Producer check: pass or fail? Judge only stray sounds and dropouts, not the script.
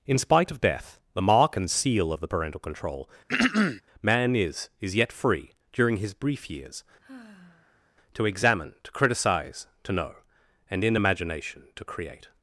fail